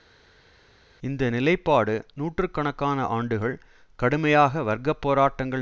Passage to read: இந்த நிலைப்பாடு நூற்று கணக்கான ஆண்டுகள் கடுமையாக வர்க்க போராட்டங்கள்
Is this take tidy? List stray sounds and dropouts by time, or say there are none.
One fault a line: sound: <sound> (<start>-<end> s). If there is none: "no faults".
no faults